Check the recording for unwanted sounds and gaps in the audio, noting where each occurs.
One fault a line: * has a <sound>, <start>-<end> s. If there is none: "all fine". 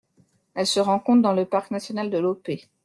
all fine